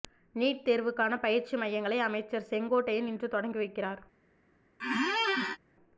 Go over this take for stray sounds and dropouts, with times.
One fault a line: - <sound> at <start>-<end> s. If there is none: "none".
- squeak at 4.8-5.6 s